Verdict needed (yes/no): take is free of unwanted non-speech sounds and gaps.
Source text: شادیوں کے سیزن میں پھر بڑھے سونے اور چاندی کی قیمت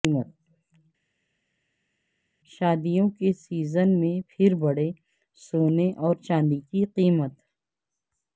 yes